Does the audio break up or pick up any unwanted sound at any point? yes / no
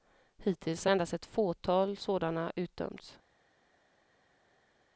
no